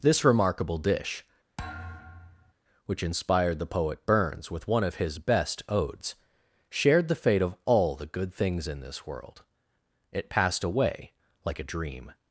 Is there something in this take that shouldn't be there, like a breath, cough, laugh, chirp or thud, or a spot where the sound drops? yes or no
yes